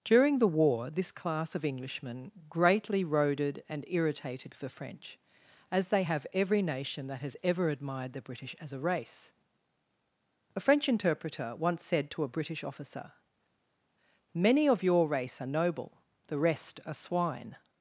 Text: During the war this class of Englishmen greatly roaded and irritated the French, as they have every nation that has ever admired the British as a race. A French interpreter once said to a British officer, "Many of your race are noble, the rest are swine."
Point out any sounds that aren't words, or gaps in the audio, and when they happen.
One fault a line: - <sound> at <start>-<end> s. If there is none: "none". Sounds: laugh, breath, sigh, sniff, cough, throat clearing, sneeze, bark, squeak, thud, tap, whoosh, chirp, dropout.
none